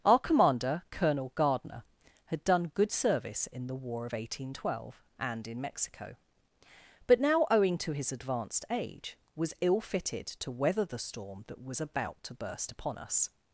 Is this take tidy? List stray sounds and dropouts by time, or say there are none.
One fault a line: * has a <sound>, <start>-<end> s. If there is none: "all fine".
all fine